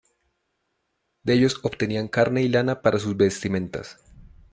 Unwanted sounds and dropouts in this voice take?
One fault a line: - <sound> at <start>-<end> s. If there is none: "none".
none